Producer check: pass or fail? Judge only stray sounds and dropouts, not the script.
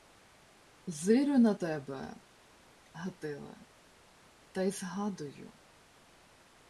pass